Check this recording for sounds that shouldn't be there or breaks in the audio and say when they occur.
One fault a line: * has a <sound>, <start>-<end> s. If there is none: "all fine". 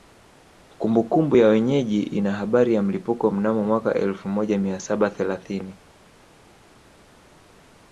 all fine